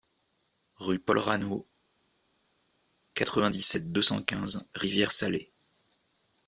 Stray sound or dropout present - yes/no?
no